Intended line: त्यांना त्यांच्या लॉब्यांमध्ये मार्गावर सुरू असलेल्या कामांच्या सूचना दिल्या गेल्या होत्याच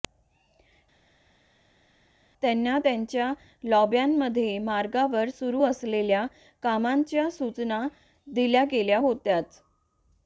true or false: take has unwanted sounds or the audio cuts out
false